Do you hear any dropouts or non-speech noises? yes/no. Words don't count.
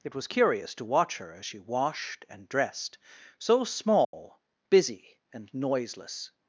yes